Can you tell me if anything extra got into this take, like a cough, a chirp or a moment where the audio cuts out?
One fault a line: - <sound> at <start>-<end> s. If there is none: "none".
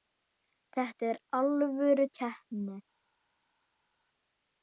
none